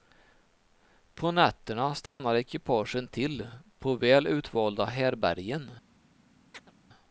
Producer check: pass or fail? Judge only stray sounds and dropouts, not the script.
fail